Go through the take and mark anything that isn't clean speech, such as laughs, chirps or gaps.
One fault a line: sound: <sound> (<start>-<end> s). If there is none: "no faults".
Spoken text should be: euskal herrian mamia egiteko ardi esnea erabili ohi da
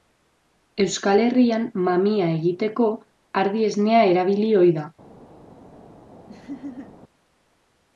sound: laugh (6.3-7.0 s)